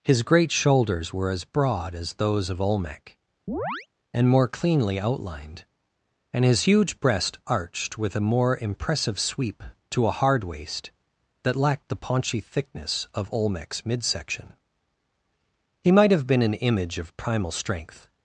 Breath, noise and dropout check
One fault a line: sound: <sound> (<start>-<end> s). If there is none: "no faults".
sound: chirp (3.5-3.9 s)